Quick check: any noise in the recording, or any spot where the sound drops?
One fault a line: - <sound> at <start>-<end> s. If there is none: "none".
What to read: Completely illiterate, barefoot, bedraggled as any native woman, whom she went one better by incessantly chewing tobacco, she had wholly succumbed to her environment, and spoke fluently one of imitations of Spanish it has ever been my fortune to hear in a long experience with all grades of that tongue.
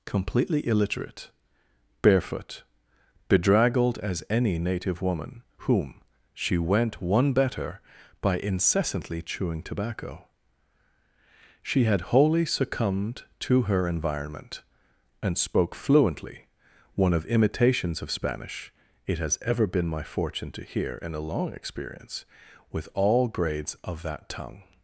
none